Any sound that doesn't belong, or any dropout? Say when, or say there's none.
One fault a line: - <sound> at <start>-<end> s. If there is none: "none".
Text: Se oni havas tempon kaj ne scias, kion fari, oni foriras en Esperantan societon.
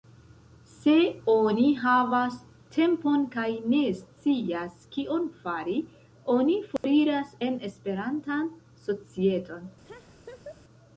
- dropout at 6.8-6.8 s
- laugh at 9.8-10.6 s